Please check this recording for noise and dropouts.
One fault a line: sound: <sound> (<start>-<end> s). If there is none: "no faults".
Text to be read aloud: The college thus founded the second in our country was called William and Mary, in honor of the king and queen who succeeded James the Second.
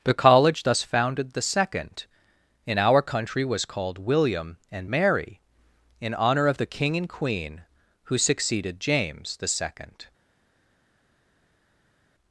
no faults